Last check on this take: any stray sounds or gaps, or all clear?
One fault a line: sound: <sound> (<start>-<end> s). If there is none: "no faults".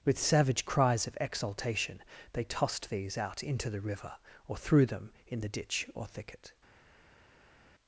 no faults